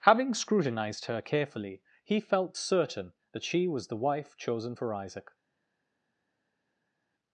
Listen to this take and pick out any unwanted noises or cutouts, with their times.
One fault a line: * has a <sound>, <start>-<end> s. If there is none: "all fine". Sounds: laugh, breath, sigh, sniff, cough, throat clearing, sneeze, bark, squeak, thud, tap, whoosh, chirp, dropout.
all fine